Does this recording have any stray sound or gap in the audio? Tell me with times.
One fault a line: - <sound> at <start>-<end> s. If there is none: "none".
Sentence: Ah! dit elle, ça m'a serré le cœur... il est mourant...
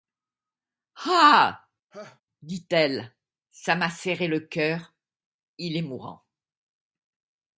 - laugh at 1.9-2.2 s